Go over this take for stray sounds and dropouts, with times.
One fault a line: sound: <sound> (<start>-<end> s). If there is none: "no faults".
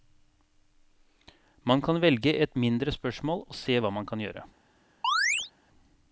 sound: chirp (5.0-5.5 s)